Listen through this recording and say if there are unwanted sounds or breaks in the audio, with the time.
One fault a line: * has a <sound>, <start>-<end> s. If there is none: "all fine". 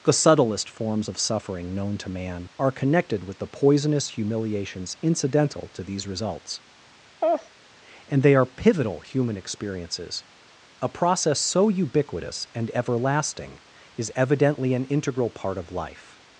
* has a laugh, 7.2-7.5 s